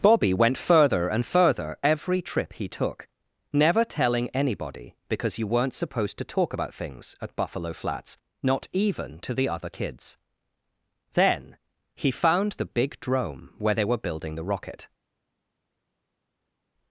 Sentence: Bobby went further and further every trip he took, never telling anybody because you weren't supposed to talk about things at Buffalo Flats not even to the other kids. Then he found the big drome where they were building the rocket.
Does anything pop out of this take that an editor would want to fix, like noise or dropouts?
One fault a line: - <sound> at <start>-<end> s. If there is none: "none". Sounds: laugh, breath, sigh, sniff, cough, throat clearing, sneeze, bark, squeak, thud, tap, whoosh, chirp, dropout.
none